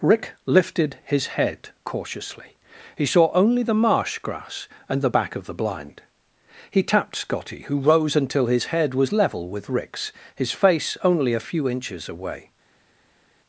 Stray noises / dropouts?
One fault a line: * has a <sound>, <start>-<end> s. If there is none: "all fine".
all fine